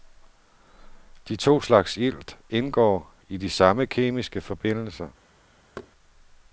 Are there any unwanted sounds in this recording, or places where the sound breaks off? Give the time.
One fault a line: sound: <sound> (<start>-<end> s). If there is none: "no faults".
sound: thud (5.8-5.9 s)